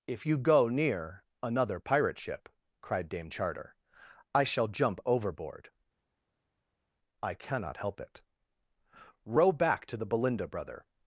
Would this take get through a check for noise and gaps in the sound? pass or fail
pass